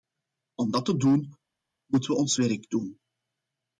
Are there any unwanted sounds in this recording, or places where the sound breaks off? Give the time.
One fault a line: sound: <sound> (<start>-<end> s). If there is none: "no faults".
no faults